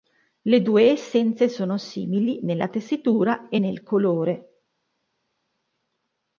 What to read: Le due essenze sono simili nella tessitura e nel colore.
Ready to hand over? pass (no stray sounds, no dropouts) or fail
pass